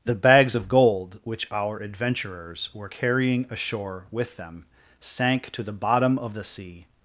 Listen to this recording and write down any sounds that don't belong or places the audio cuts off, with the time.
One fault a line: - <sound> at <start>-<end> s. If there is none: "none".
none